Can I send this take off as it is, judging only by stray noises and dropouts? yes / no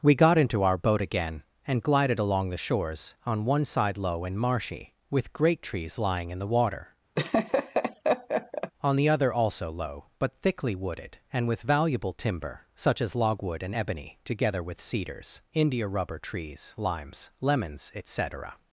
no